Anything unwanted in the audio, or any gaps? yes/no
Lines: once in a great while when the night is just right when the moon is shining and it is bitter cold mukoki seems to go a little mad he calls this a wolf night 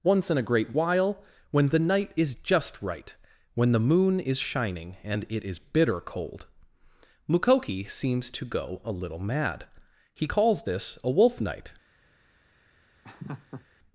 yes